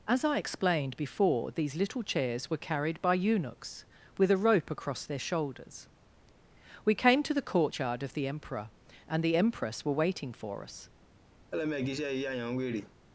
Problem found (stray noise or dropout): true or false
true